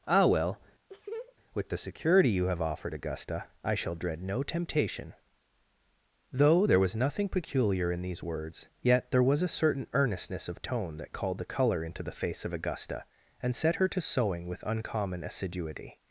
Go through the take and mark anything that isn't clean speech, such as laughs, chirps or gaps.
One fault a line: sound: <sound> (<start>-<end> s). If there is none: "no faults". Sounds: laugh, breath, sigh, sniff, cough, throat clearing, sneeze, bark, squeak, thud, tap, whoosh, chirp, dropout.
sound: laugh (0.9-1.4 s)